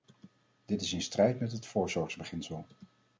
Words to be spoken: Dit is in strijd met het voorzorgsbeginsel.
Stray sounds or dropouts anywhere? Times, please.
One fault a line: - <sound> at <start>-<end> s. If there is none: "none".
none